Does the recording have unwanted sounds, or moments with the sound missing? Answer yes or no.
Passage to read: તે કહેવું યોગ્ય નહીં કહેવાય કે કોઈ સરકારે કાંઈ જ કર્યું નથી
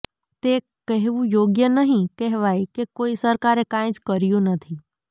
no